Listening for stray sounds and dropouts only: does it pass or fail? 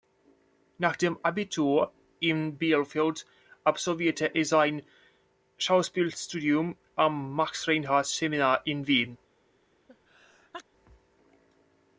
fail